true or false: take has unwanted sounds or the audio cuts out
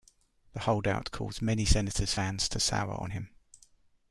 false